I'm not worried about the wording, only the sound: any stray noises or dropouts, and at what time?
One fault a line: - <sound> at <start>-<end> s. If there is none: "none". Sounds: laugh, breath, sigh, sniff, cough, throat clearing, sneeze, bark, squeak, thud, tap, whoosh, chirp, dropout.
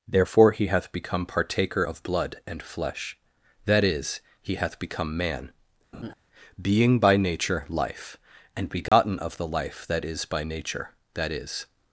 - laugh at 5.9-6.1 s
- dropout at 8.9-8.9 s